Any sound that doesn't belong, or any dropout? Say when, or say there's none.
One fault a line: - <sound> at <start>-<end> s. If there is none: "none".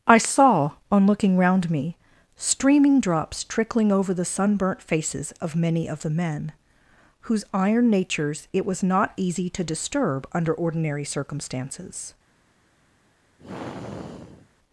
- sigh at 13.4-14.5 s